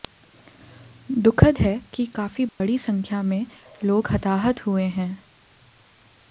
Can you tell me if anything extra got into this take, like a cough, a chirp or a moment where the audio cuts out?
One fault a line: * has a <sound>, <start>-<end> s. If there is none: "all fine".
* has a dropout, 2.5-2.6 s